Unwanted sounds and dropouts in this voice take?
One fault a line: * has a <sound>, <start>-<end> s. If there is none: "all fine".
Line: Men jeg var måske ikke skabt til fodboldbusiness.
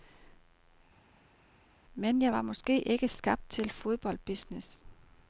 all fine